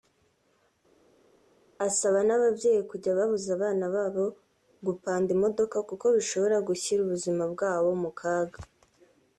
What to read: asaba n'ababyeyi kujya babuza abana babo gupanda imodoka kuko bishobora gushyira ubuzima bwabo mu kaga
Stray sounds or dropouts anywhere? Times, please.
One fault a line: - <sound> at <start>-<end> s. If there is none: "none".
none